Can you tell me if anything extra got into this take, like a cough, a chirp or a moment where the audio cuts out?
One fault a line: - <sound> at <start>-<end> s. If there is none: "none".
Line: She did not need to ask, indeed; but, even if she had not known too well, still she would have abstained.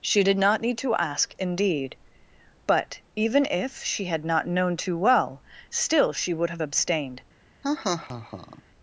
- laugh at 7.6-8.6 s